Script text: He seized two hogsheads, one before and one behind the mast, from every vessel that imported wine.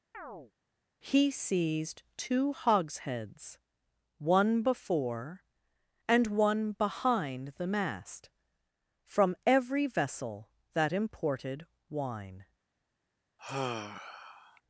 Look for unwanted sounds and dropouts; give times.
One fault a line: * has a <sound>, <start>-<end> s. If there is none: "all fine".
* has a chirp, 0.1-0.5 s
* has a sigh, 13.4-14.6 s